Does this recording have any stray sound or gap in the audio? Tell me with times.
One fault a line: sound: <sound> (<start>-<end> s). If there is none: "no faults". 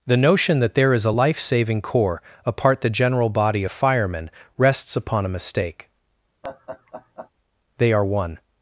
sound: laugh (6.4-7.3 s)